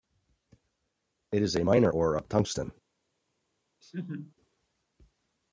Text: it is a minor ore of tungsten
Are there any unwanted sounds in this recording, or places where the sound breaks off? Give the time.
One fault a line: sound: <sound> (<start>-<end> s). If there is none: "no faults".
sound: laugh (3.8-4.3 s)